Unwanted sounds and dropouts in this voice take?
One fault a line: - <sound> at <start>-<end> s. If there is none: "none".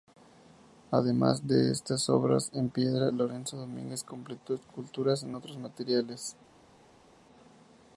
none